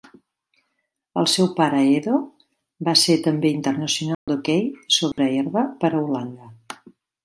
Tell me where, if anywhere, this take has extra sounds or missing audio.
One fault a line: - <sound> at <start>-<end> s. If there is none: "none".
- dropout at 4.1-4.3 s
- dropout at 5.1-5.2 s